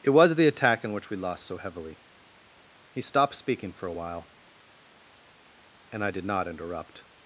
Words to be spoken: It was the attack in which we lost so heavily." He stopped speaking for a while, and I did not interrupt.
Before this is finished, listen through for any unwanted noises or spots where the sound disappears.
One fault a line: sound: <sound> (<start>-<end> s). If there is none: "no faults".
no faults